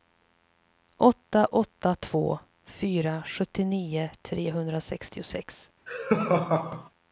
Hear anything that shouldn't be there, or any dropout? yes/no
yes